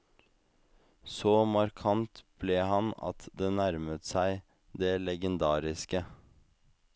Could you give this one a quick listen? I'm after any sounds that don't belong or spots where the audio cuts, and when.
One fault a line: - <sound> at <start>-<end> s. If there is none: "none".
none